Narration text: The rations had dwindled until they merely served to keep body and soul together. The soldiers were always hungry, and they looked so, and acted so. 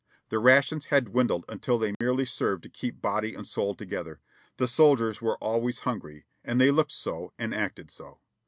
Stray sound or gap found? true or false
true